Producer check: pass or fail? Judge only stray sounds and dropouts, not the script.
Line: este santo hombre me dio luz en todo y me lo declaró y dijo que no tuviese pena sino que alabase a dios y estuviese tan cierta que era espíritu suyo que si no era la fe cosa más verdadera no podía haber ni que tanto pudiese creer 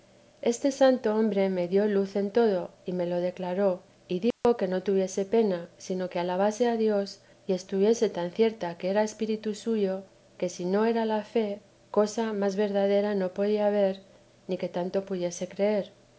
fail